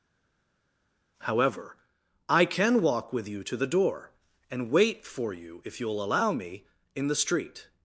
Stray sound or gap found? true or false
false